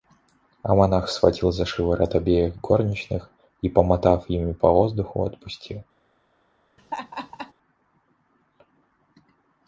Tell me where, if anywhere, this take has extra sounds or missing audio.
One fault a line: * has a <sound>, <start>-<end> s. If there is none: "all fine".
* has a laugh, 6.8-7.5 s